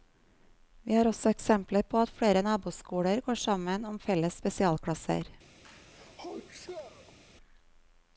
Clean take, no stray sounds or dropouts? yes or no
no